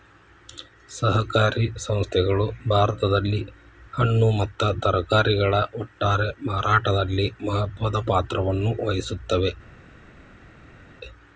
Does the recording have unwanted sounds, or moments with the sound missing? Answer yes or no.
no